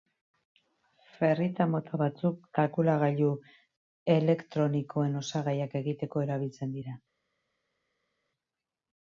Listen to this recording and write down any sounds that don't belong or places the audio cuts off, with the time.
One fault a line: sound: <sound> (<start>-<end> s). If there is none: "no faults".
no faults